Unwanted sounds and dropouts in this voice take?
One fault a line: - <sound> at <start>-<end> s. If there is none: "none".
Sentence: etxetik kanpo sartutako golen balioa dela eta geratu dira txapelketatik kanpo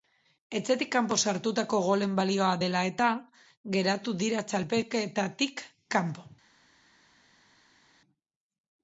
none